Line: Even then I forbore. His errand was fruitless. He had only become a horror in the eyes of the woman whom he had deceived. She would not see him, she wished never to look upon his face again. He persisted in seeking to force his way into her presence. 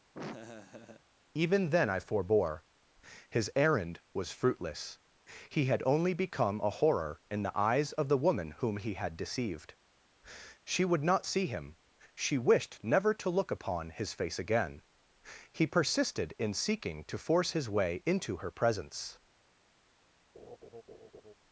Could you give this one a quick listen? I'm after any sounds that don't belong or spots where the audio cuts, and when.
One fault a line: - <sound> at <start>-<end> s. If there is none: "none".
- laugh at 0.1-1.0 s
- laugh at 20.3-21.3 s